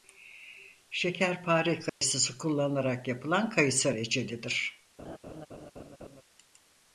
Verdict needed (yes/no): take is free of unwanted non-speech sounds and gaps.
no